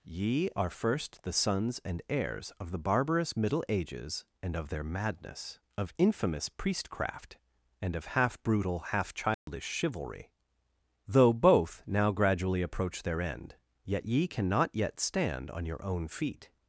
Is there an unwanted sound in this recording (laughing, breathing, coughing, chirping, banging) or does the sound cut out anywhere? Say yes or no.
yes